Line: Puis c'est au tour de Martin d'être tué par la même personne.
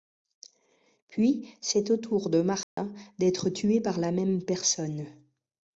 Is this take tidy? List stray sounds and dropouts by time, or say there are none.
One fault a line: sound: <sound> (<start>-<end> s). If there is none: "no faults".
sound: dropout (2.6-2.8 s)